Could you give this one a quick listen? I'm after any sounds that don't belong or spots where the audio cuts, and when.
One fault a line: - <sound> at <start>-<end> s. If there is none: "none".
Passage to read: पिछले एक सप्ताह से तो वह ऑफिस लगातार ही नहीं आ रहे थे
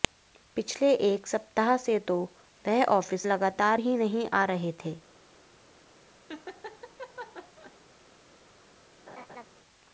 - laugh at 6.3-7.8 s
- laugh at 9.1-9.5 s